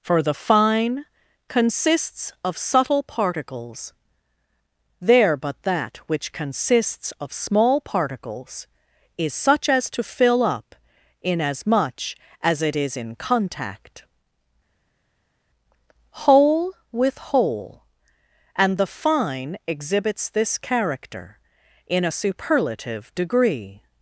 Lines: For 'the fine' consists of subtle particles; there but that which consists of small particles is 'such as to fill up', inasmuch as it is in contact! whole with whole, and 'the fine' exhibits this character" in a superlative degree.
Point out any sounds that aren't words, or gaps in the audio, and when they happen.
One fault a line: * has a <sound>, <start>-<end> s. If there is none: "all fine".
all fine